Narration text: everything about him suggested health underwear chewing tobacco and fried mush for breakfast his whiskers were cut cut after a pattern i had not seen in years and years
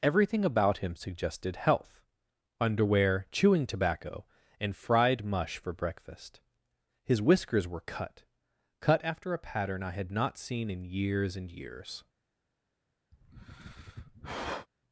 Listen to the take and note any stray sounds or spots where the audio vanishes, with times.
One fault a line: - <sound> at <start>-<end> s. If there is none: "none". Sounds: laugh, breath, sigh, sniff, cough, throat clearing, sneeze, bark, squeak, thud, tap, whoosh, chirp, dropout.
- sigh at 13.1-14.7 s